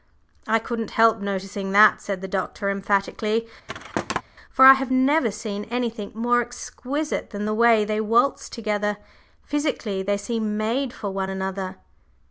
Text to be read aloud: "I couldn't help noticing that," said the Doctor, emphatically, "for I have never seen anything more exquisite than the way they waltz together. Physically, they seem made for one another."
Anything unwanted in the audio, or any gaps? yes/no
yes